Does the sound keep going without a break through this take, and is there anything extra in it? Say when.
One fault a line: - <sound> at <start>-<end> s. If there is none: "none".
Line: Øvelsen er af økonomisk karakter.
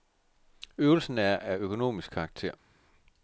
none